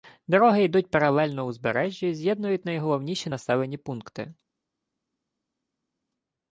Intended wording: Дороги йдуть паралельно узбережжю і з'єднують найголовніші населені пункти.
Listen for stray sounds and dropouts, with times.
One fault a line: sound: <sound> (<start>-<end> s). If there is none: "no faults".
no faults